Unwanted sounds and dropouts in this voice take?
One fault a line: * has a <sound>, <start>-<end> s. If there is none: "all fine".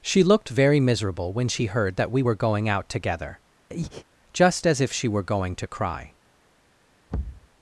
* has a breath, 3.7-4.1 s
* has a thud, 7.1-7.5 s